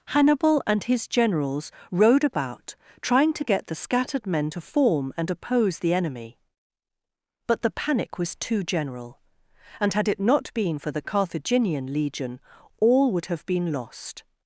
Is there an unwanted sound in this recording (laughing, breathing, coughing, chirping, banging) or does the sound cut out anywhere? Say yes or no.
no